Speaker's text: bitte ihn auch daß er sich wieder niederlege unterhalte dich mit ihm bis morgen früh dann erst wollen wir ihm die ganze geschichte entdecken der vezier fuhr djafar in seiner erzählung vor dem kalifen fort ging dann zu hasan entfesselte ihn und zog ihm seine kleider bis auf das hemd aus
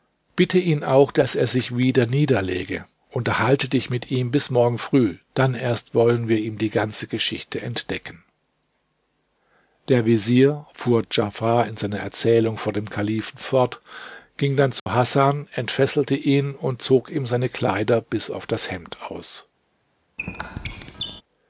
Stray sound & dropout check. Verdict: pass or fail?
fail